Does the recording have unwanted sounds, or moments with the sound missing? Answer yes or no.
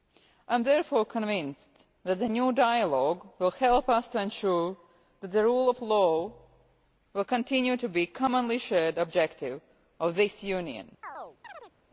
yes